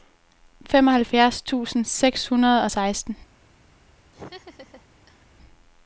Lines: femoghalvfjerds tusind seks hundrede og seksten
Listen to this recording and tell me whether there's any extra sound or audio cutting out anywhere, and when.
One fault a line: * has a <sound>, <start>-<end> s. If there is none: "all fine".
* has a laugh, 4.1-5.3 s